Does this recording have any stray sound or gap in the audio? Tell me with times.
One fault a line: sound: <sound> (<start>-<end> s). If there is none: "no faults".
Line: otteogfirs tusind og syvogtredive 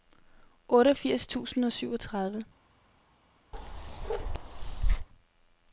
sound: bark (3.5-5.1 s)